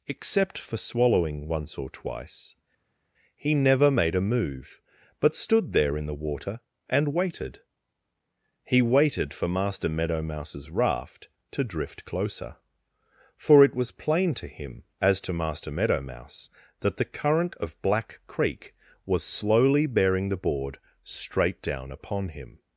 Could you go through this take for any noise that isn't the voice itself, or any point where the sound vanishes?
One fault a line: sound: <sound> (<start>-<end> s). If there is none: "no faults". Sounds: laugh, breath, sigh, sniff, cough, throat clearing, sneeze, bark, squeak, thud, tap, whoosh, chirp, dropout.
no faults